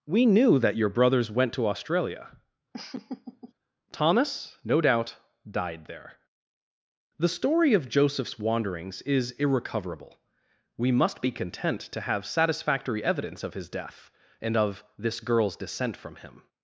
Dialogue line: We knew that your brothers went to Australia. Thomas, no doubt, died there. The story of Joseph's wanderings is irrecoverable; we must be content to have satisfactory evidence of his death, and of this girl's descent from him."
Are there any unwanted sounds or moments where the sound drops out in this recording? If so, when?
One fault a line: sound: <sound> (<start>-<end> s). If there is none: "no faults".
sound: laugh (2.7-3.5 s)